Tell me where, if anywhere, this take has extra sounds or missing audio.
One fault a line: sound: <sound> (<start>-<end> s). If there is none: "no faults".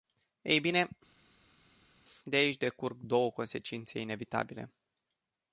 no faults